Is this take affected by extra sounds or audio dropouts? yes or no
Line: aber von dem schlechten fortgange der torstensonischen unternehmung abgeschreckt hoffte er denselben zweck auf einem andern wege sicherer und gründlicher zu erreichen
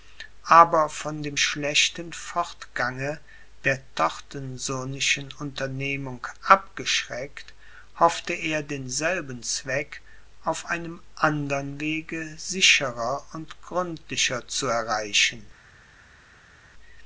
no